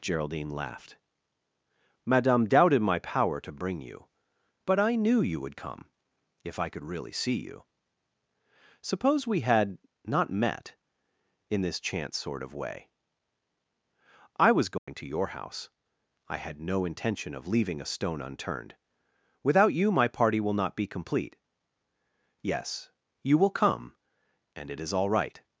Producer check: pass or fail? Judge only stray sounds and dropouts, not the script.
fail